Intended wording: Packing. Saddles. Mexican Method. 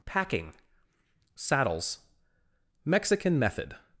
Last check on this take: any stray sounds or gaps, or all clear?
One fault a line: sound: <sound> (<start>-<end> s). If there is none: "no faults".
no faults